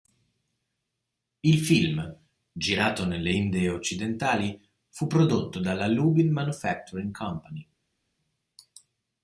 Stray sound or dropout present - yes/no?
no